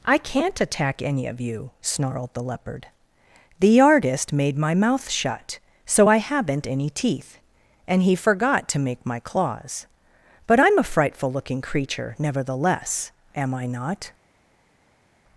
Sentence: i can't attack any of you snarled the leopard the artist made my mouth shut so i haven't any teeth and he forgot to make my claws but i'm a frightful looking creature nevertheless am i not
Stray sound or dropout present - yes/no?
no